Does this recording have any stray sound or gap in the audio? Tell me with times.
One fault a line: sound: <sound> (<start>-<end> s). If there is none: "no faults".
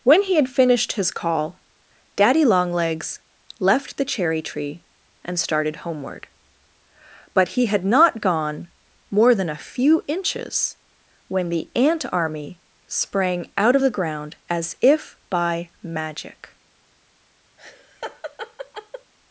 sound: laugh (17.6-19.1 s)